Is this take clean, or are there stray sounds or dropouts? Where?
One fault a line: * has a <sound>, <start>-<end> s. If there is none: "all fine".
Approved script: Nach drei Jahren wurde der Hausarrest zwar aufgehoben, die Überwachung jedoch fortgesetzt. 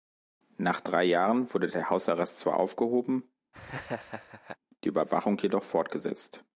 * has a laugh, 3.5-4.6 s